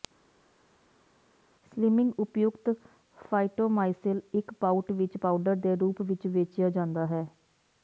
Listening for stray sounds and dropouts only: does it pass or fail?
pass